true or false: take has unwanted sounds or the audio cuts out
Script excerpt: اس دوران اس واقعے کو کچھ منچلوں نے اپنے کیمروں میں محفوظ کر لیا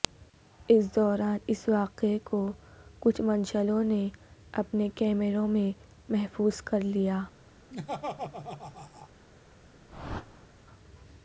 true